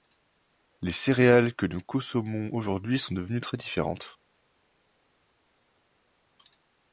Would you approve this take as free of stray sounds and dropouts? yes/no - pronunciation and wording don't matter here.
yes